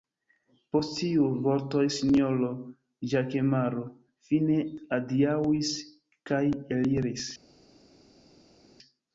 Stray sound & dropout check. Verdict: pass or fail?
pass